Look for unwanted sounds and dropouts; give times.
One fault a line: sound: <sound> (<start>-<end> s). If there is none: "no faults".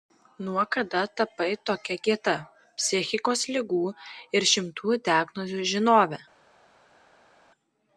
no faults